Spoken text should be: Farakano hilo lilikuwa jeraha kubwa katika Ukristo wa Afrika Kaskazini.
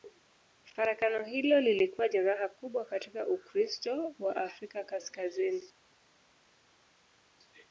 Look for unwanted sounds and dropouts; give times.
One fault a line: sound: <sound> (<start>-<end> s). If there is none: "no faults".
no faults